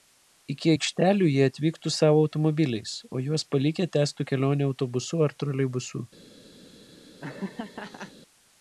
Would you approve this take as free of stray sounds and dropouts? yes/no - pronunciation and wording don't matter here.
no